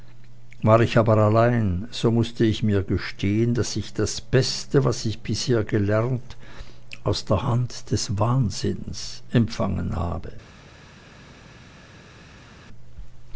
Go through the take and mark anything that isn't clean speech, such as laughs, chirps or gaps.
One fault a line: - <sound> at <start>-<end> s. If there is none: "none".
none